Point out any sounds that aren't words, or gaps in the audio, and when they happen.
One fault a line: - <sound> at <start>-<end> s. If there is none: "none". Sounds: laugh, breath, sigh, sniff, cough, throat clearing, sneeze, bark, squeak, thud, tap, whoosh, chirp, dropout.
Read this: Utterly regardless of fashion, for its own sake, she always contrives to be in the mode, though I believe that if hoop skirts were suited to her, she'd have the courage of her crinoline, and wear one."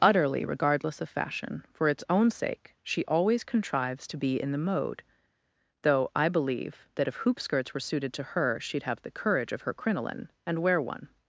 none